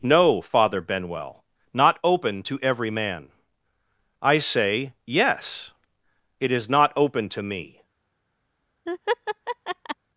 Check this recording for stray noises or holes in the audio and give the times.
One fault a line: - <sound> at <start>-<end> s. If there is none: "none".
- laugh at 8.9-10.0 s